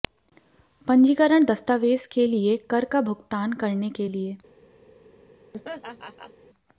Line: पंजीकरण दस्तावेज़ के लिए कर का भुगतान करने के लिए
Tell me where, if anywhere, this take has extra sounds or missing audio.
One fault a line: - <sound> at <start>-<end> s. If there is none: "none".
- laugh at 5.5-6.3 s